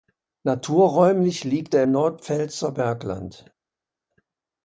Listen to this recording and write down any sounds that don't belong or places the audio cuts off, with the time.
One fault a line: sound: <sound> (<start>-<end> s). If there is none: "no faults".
no faults